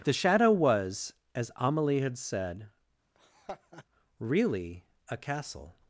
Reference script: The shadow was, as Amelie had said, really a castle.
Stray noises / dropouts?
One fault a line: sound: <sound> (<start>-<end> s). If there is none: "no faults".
sound: laugh (3.1-3.8 s)